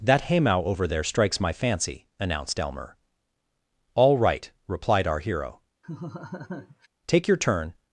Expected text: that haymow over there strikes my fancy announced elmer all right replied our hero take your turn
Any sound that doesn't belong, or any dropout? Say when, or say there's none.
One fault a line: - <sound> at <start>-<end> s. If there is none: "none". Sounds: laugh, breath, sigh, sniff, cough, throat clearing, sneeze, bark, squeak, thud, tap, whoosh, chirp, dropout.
- laugh at 5.8-6.9 s